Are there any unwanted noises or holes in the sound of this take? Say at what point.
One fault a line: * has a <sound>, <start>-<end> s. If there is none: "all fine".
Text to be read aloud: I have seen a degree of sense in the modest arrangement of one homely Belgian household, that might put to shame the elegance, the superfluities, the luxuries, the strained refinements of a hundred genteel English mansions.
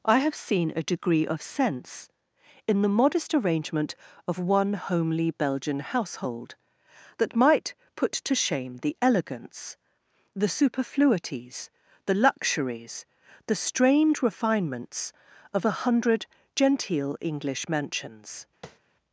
* has a tap, 18.6-18.8 s